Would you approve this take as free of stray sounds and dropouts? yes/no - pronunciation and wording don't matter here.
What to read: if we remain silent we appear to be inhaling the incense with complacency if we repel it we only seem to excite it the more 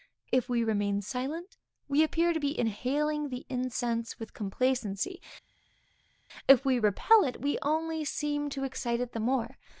yes